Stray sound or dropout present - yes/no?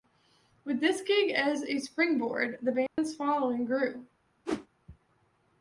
yes